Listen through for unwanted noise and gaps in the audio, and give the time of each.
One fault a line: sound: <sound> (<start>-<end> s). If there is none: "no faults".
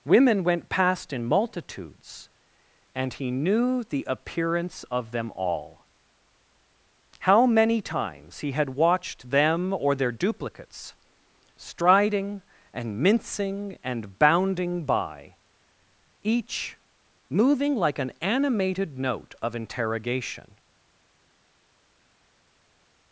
no faults